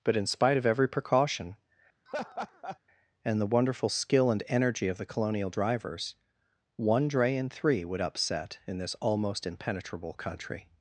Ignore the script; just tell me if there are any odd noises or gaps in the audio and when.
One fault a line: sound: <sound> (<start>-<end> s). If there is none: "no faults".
sound: laugh (2.1-2.8 s)